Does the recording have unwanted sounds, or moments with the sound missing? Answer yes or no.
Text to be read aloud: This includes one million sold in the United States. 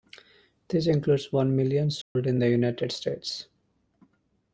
yes